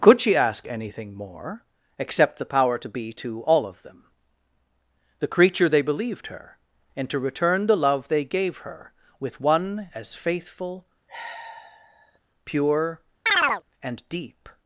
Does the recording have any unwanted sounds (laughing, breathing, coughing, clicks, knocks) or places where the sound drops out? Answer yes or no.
yes